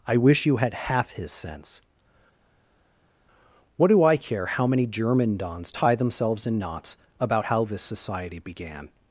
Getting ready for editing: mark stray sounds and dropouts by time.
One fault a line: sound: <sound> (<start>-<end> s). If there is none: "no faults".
no faults